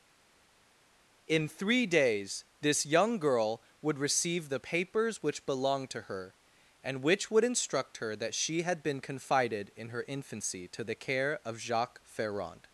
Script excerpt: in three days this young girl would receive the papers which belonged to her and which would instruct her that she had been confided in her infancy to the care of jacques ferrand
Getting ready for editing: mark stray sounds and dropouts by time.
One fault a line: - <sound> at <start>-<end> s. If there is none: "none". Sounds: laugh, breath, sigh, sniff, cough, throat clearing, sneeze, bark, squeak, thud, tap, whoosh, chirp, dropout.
none